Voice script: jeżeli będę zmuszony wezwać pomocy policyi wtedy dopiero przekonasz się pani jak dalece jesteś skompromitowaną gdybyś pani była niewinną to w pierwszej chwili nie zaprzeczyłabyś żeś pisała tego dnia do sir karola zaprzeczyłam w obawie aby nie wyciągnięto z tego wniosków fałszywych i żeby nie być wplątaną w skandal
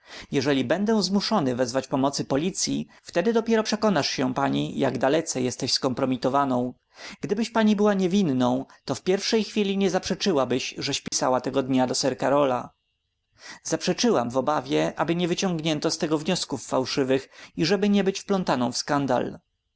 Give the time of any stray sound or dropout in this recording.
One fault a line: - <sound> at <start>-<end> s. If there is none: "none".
- dropout at 11.1-11.1 s